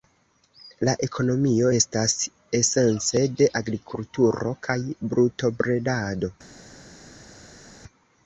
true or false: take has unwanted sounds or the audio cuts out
false